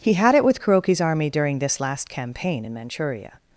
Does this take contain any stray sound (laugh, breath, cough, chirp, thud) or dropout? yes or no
no